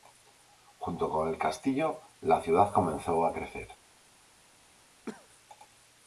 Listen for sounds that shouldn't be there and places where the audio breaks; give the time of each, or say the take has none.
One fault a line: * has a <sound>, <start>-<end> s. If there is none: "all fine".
* has a cough, 5.1-5.3 s